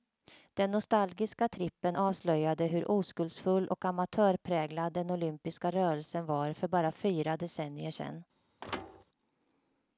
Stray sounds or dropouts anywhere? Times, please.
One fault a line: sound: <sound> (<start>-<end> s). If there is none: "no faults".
sound: thud (8.6-9.0 s)